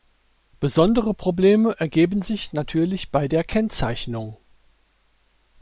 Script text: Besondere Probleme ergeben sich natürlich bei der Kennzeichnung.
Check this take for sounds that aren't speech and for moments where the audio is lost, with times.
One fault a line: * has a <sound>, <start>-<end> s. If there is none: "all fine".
all fine